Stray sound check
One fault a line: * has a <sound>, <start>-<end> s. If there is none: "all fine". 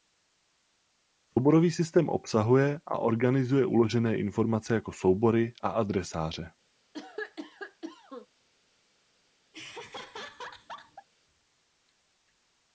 * has a cough, 6.9-8.3 s
* has a laugh, 9.5-11.1 s